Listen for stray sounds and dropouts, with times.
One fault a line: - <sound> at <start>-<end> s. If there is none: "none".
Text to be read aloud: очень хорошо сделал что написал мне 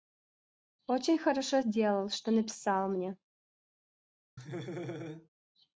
- laugh at 4.4-5.3 s